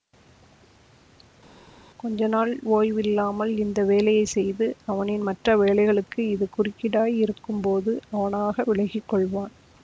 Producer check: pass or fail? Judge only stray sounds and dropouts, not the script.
pass